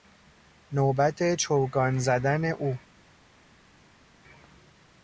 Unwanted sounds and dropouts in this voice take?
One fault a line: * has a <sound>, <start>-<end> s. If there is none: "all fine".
all fine